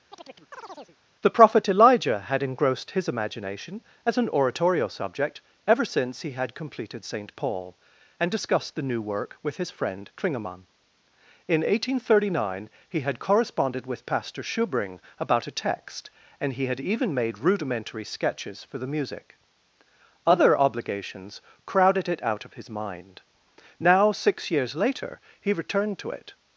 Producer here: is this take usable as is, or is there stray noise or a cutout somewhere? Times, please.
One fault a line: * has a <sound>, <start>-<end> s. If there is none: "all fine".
* has a chirp, 0.1-1.0 s